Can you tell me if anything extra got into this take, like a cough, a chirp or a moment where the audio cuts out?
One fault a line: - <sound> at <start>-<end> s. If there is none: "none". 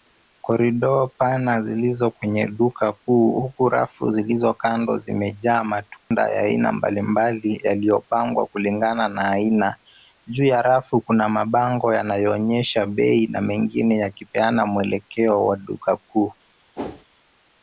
- dropout at 6.0-6.1 s
- whoosh at 16.8-17.1 s